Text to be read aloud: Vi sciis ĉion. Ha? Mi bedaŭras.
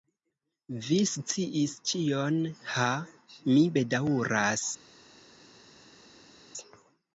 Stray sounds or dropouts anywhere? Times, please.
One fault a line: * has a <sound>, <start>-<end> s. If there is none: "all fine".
all fine